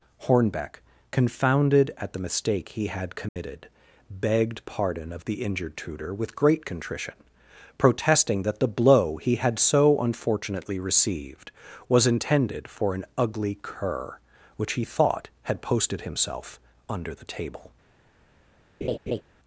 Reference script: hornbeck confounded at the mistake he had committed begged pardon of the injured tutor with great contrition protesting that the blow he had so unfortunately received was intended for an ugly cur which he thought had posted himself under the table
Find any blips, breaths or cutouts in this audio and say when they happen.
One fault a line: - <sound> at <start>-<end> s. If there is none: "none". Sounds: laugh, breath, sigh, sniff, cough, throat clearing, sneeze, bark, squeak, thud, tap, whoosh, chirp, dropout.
- dropout at 3.3-3.4 s
- laugh at 18.8-19.2 s